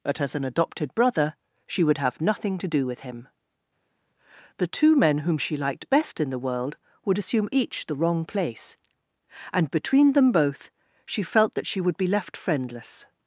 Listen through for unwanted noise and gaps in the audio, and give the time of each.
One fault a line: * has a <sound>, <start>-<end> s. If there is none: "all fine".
all fine